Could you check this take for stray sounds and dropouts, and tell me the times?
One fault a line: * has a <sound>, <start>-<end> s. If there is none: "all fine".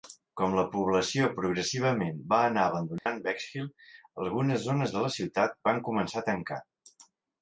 * has a dropout, 3.0-3.1 s